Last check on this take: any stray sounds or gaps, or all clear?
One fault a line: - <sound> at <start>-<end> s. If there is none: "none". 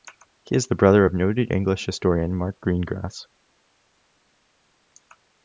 none